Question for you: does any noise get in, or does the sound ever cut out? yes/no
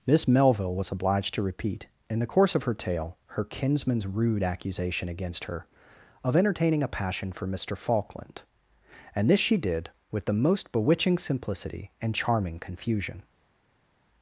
no